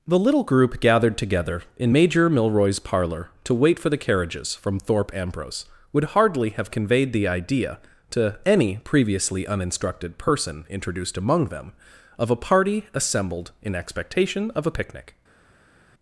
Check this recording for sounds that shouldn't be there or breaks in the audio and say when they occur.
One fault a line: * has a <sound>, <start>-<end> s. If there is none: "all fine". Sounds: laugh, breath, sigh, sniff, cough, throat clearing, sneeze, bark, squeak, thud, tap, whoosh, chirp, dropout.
all fine